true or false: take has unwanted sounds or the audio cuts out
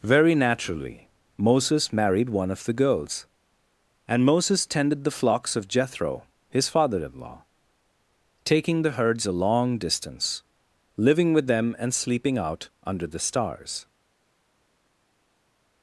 false